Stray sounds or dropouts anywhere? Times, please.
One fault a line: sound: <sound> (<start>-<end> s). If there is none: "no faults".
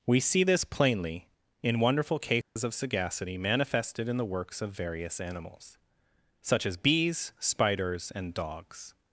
sound: dropout (2.4-2.6 s)